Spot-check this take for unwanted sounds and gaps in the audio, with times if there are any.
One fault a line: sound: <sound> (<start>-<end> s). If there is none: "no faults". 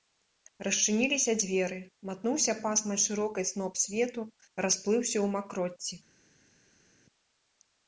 no faults